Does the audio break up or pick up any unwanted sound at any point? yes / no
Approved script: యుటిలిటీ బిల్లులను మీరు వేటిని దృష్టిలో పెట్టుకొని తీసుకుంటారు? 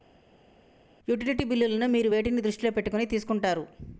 no